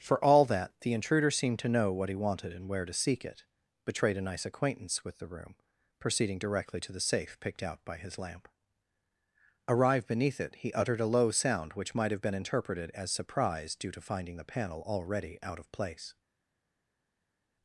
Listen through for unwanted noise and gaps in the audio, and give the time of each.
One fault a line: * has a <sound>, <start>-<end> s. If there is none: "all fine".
all fine